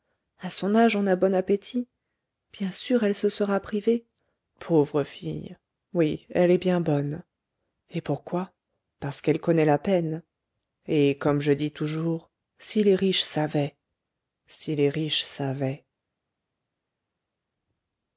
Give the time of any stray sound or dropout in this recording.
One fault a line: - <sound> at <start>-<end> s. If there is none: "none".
none